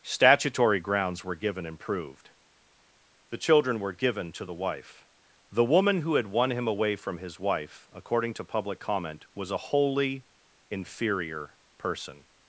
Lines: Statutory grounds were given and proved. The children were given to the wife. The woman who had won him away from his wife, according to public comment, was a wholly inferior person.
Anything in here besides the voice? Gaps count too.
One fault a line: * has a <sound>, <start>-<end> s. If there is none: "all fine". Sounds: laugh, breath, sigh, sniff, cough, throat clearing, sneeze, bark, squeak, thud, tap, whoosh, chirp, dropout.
all fine